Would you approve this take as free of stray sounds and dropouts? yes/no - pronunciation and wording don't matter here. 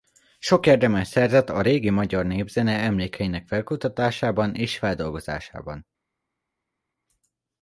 yes